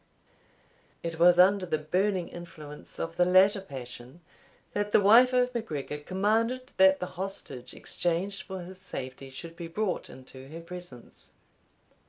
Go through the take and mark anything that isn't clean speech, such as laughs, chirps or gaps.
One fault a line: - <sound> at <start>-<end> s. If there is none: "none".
none